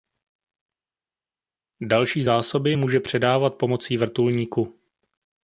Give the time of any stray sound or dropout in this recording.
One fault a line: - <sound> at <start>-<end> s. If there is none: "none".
none